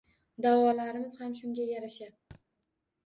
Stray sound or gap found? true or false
true